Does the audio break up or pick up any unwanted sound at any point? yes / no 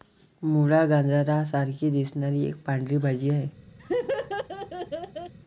yes